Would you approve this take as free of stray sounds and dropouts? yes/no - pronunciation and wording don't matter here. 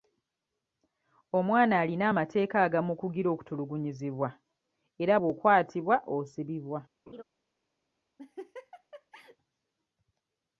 no